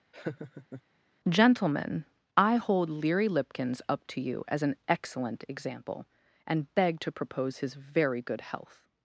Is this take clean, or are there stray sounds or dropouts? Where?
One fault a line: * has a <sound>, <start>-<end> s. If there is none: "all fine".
* has a laugh, 0.1-0.8 s